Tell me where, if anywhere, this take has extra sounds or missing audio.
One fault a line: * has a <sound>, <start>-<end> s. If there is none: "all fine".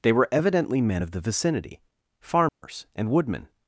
* has a dropout, 2.5-2.6 s